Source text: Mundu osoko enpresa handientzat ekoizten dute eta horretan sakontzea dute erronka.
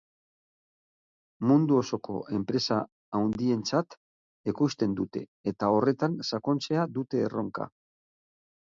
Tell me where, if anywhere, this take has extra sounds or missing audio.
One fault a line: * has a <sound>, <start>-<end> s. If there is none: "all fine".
all fine